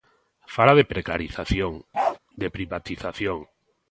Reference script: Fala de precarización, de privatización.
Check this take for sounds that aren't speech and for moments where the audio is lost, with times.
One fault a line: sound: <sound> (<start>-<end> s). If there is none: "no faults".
sound: bark (1.9-2.2 s)